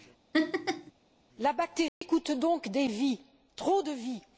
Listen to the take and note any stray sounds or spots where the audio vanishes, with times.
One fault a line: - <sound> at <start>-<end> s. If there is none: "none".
- laugh at 0.3-0.9 s
- dropout at 1.9-2.0 s